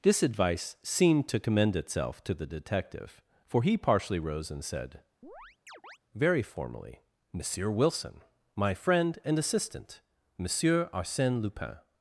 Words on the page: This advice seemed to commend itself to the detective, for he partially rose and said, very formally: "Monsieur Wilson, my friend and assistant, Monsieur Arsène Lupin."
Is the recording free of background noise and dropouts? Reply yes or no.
no